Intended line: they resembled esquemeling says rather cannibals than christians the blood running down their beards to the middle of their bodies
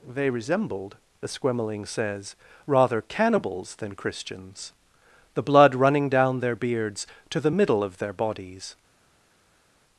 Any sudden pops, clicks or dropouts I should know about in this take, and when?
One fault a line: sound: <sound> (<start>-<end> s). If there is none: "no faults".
no faults